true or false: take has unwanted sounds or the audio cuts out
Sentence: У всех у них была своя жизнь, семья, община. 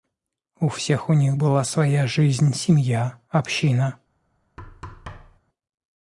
true